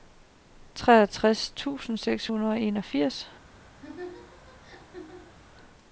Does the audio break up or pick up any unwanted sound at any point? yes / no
yes